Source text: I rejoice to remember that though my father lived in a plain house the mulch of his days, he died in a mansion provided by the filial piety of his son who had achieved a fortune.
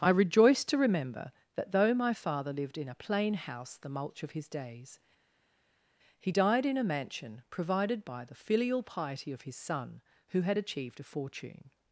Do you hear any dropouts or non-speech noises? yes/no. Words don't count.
no